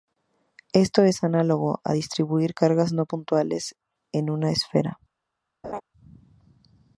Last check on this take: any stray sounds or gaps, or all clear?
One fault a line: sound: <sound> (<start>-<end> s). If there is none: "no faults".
sound: laugh (5.6-5.8 s)